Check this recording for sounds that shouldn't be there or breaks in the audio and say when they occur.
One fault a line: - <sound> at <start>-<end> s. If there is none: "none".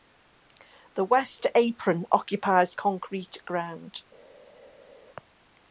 none